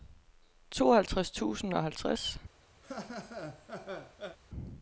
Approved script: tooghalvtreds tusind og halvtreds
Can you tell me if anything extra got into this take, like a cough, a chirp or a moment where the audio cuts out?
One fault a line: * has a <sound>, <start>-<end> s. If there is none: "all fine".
* has a laugh, 2.8-4.4 s